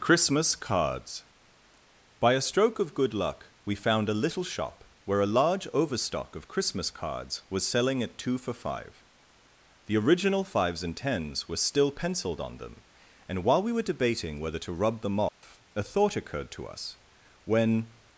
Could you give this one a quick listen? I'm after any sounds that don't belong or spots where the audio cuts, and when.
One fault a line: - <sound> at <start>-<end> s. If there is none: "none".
- dropout at 15.3-15.4 s